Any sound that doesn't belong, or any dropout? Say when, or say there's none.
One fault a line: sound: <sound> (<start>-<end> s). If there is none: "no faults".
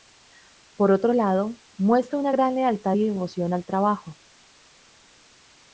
no faults